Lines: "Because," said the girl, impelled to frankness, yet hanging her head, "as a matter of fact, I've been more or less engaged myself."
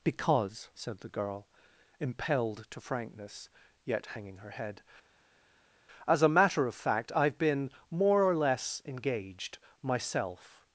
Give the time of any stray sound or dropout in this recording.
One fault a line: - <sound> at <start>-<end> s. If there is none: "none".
none